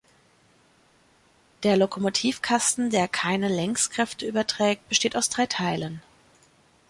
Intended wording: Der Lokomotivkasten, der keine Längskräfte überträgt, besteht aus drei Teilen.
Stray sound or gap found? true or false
false